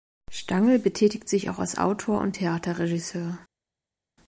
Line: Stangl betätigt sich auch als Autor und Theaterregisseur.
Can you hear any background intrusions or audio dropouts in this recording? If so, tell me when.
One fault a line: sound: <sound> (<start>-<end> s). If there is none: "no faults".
no faults